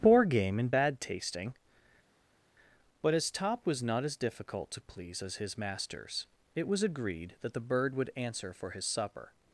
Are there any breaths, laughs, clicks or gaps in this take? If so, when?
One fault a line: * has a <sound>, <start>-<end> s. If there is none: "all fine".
all fine